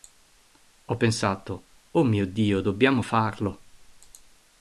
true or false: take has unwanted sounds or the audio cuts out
false